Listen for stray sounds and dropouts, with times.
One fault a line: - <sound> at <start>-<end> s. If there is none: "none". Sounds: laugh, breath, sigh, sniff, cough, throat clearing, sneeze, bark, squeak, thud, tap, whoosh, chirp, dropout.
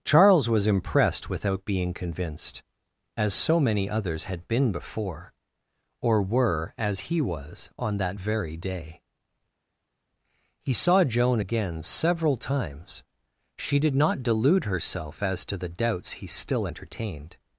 none